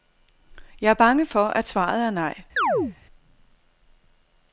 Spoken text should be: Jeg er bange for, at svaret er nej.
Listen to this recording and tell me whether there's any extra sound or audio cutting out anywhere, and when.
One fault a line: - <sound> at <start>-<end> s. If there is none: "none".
- chirp at 2.6-3.0 s